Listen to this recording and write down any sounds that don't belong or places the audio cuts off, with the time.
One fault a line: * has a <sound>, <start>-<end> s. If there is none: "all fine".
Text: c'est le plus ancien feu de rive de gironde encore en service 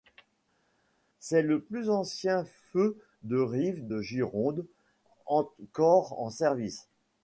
all fine